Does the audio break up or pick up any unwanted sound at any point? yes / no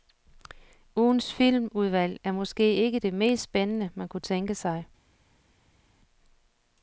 no